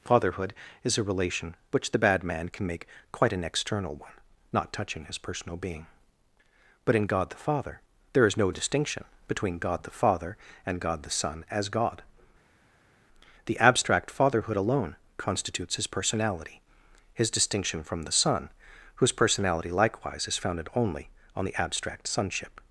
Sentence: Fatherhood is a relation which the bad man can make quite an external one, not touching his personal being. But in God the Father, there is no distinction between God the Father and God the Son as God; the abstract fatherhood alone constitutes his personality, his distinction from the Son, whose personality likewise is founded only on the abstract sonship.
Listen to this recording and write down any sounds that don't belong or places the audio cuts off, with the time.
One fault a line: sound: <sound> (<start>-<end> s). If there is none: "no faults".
no faults